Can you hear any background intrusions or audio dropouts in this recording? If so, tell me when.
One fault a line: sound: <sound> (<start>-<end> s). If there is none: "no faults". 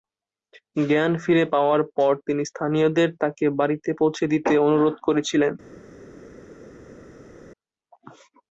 no faults